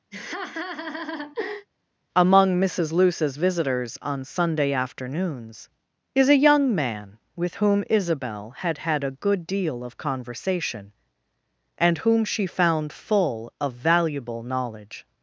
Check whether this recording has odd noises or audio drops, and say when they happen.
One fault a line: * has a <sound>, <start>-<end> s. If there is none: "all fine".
* has a laugh, 0.1-1.7 s